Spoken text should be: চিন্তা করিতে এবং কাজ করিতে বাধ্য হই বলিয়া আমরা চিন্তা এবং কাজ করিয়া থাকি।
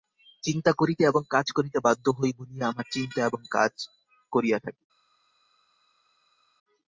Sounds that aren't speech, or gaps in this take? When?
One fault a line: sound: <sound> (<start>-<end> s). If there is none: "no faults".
no faults